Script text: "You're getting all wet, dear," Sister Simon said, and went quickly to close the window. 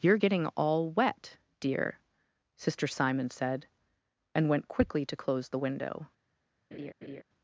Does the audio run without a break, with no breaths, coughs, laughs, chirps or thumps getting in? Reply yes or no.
no